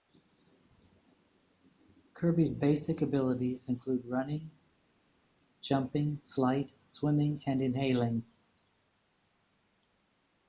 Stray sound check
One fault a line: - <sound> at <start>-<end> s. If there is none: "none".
none